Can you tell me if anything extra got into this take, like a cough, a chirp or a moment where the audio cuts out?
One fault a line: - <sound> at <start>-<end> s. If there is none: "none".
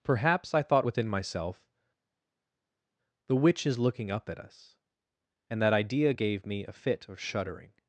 none